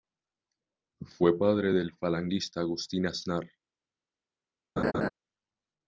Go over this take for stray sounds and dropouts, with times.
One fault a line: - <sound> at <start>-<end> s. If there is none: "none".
- laugh at 4.8-5.1 s